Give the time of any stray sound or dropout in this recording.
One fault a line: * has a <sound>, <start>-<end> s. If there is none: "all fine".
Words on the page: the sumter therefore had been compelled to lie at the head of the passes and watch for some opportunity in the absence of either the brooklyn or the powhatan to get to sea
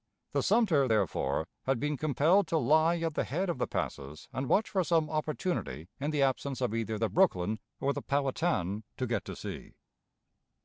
all fine